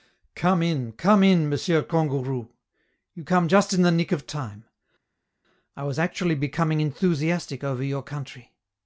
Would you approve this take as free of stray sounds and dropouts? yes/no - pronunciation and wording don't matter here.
yes